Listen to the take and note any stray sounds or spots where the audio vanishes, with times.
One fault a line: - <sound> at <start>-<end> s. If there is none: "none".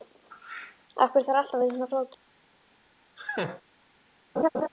- laugh at 3.2-3.6 s
- laugh at 4.4-4.7 s